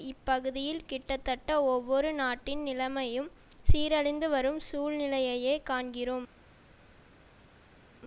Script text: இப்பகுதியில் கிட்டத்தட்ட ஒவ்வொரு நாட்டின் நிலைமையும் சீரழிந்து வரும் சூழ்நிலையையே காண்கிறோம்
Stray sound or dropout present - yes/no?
no